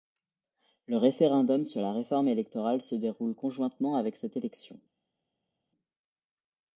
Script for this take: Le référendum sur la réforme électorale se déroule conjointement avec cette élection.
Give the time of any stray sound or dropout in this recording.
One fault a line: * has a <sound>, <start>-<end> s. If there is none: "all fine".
all fine